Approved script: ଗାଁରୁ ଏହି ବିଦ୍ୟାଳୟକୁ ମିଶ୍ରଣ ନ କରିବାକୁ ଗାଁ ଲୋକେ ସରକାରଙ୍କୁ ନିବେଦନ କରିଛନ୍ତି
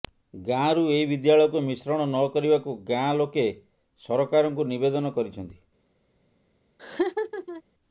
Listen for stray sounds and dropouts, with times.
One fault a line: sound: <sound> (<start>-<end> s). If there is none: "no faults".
sound: laugh (6.8-7.6 s)